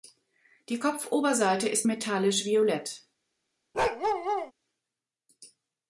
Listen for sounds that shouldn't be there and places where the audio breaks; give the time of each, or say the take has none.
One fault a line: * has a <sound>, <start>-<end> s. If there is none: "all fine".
* has a bark, 3.7-4.5 s